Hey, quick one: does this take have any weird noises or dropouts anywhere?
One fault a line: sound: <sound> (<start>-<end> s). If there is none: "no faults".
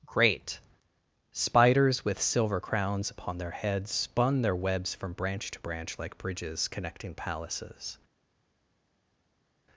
no faults